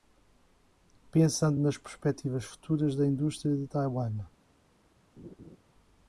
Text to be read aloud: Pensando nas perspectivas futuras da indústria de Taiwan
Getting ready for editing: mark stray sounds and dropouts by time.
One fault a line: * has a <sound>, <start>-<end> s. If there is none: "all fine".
* has a laugh, 5.2-5.6 s